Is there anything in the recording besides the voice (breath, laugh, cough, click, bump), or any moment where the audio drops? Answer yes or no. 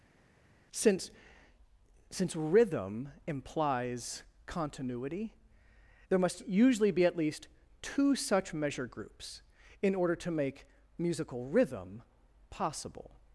no